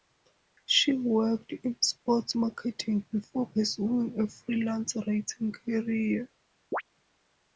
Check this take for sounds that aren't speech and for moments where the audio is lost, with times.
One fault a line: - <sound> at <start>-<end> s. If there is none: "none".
- chirp at 6.7-6.8 s